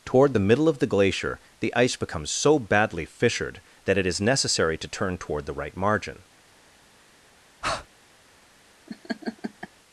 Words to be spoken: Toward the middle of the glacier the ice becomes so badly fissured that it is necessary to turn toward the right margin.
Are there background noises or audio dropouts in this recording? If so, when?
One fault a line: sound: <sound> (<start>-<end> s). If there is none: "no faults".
sound: breath (7.6-7.9 s)
sound: laugh (8.9-9.7 s)